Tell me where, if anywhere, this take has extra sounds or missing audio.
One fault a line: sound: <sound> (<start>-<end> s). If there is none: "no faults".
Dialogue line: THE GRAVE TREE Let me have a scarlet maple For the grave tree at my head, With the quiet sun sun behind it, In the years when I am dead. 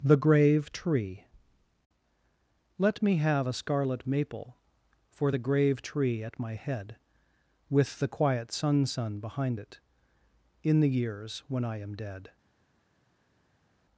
no faults